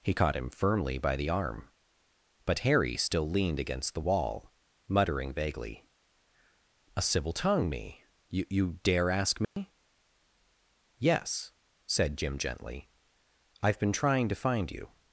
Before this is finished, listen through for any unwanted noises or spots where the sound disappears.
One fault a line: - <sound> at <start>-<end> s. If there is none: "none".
- dropout at 9.4-9.6 s